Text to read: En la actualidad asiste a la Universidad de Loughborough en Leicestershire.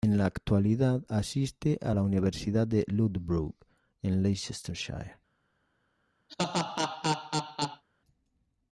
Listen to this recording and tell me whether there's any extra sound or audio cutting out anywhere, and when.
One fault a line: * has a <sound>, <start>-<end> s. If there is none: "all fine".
* has a laugh, 6.3-7.8 s